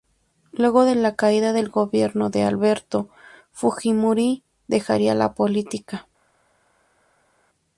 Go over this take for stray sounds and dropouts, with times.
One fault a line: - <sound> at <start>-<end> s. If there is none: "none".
none